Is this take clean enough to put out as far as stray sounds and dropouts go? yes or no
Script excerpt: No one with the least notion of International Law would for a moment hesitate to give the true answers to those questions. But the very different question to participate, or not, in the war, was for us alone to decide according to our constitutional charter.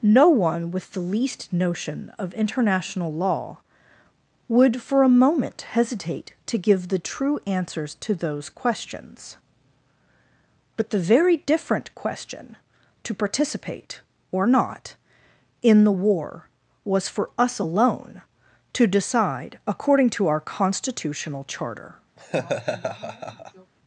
no